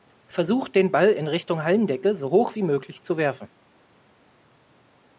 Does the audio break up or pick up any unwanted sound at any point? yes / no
no